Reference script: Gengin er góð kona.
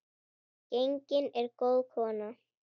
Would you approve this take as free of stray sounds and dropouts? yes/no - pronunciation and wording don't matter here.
yes